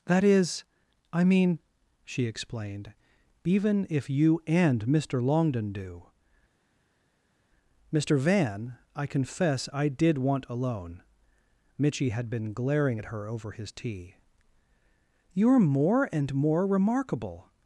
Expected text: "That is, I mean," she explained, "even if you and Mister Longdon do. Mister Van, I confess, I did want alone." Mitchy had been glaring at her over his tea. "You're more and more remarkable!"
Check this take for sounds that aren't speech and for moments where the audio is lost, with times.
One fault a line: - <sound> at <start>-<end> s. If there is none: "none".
none